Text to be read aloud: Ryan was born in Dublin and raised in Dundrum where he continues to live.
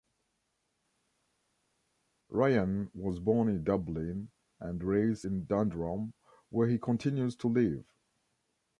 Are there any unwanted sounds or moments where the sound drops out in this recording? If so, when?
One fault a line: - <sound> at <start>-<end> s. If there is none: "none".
none